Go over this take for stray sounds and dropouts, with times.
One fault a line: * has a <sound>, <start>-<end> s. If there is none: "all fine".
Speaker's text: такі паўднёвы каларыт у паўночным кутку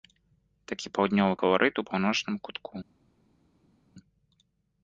all fine